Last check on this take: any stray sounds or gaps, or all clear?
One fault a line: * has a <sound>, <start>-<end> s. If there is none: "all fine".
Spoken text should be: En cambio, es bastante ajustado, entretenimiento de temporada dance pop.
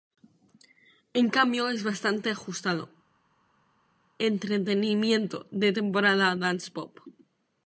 all fine